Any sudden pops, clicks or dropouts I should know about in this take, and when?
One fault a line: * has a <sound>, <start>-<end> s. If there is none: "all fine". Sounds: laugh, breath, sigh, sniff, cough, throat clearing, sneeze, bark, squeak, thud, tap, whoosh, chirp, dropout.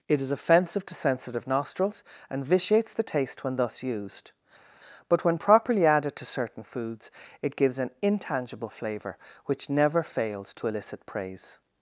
all fine